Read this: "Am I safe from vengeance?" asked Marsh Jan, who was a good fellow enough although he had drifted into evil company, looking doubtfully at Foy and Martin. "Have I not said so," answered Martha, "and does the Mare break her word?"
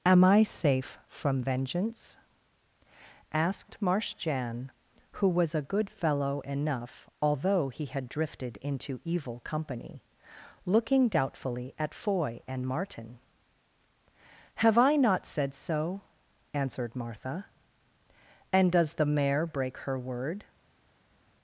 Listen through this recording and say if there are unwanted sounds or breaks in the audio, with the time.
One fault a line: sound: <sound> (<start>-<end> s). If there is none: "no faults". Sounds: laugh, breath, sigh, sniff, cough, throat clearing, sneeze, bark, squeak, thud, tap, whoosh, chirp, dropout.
no faults